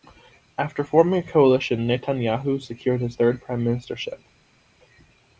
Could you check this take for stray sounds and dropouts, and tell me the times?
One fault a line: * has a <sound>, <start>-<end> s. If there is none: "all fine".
all fine